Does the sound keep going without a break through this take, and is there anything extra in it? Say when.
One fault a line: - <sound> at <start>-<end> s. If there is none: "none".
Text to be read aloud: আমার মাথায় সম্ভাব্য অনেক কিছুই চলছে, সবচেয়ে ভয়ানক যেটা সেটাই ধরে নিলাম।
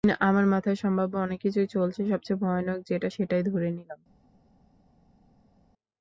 none